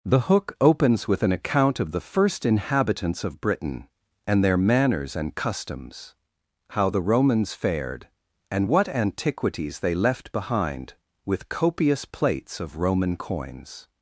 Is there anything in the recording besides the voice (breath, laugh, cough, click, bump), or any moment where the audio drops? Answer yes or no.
no